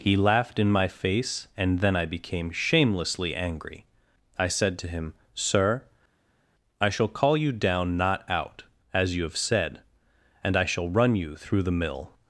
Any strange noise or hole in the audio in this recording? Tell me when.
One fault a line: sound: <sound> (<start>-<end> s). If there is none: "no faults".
no faults